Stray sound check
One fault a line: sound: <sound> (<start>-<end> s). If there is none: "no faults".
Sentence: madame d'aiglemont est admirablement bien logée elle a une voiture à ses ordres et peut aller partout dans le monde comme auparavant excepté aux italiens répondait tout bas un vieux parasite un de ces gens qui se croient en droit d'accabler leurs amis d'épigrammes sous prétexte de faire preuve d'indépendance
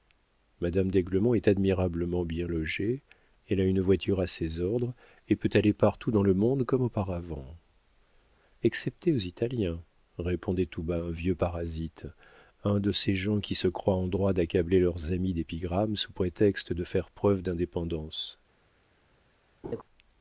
sound: laugh (19.6-19.8 s)